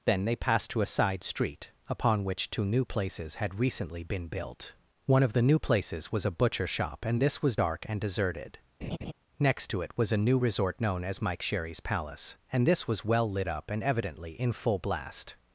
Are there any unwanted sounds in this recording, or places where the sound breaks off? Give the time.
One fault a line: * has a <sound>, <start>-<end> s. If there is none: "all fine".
* has a laugh, 8.8-9.1 s